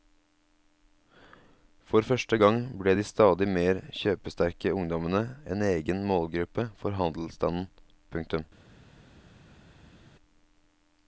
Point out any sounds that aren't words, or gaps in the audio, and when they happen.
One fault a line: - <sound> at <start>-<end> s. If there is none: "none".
none